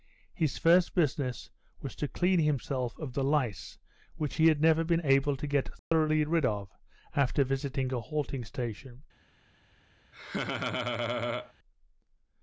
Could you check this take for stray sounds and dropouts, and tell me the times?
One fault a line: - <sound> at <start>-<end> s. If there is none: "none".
- dropout at 5.8-5.9 s
- laugh at 10.1-11.5 s